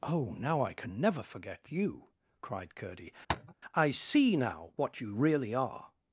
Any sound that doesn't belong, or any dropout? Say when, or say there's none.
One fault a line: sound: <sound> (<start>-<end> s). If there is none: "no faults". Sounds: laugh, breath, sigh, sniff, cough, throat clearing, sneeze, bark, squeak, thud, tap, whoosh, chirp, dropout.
sound: tap (3.3-3.5 s)